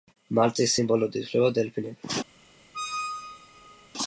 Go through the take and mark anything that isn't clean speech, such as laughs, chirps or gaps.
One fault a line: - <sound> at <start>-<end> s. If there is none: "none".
- squeak at 2.7-3.9 s